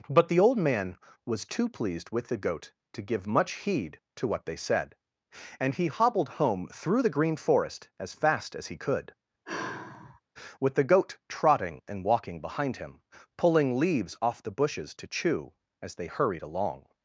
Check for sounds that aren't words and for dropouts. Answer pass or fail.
fail